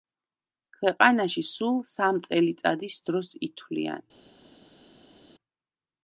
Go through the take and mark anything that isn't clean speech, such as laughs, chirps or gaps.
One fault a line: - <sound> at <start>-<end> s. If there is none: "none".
none